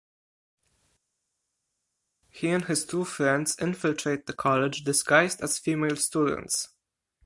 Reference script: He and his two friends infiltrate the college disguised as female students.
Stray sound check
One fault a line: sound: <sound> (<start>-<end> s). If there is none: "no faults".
no faults